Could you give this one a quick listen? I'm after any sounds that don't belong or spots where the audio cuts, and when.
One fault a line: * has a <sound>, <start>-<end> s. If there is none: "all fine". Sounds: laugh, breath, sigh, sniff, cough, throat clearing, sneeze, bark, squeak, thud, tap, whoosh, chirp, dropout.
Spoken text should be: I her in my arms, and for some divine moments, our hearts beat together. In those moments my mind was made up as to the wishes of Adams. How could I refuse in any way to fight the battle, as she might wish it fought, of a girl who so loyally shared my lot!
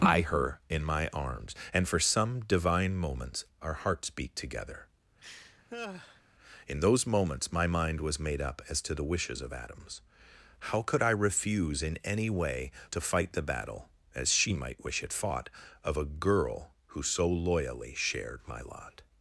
* has a laugh, 5.2-6.2 s